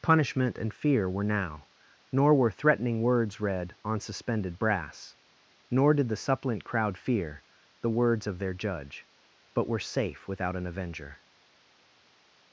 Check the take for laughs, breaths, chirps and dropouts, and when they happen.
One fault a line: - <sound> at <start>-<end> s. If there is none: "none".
none